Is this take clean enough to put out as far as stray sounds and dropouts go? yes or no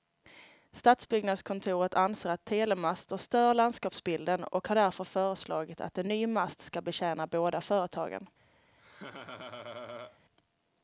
no